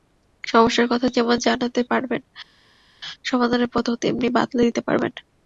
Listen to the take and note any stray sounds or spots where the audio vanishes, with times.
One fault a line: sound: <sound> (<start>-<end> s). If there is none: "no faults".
no faults